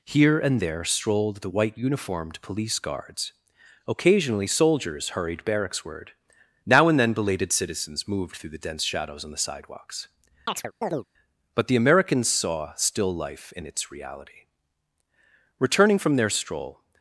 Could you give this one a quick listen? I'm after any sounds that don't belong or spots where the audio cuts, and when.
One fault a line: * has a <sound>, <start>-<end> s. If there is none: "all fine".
* has a chirp, 10.5-11.1 s